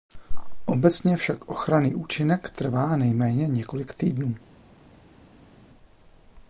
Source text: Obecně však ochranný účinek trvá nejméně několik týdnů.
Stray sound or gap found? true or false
false